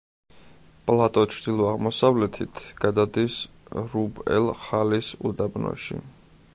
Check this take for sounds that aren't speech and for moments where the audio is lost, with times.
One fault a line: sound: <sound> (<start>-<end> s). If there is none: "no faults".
no faults